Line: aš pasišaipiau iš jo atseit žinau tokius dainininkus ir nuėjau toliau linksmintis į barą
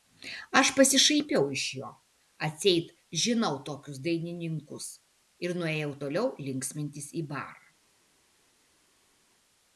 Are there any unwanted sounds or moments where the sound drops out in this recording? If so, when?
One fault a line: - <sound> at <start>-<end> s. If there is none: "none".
none